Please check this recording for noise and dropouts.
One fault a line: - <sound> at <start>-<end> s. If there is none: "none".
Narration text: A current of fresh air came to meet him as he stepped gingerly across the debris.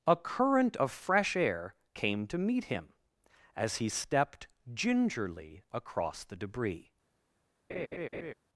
- laugh at 7.7-8.3 s